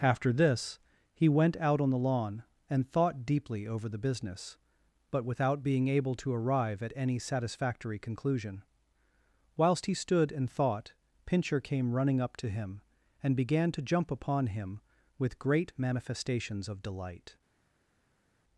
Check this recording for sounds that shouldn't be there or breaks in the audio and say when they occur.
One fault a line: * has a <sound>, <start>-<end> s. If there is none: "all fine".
all fine